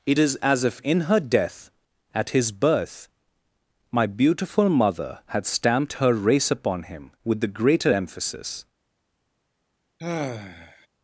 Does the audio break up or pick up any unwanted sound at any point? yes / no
yes